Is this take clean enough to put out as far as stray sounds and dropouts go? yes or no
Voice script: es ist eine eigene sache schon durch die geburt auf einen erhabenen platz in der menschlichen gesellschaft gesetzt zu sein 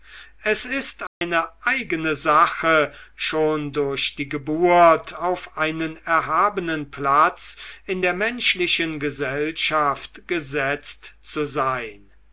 no